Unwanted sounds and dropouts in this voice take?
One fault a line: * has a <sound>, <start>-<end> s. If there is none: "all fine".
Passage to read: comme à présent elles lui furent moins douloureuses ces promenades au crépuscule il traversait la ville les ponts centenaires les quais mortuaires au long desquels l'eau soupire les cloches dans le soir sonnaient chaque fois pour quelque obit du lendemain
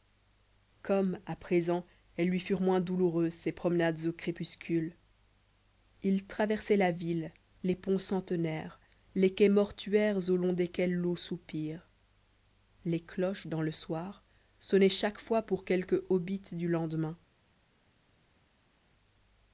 all fine